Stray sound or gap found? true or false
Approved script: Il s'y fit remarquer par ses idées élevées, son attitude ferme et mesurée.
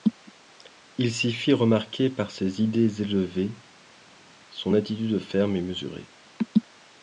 false